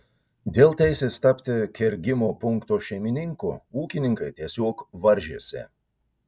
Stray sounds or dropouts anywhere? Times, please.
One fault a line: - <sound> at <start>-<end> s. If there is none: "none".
none